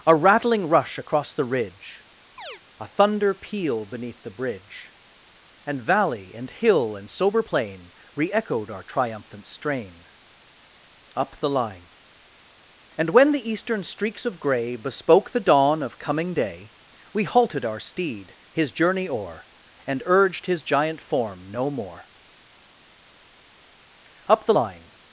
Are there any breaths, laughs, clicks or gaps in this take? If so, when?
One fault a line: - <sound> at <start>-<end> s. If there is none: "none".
- chirp at 2.4-2.6 s